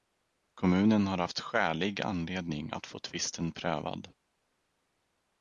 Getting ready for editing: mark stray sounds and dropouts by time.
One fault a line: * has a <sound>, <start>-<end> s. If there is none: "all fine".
all fine